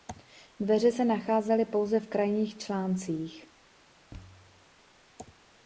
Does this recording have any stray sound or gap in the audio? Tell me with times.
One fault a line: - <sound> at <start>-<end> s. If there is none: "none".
- thud at 4.1-4.7 s